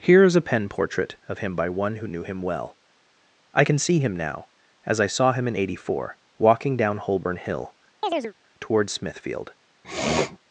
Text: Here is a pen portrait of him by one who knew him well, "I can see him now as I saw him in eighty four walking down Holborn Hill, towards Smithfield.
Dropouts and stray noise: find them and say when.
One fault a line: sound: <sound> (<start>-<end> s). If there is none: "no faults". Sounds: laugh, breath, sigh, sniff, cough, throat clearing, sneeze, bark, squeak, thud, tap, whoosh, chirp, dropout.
sound: chirp (8.0-8.3 s)
sound: sniff (9.8-10.4 s)